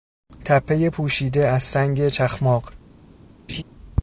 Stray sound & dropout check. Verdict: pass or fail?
fail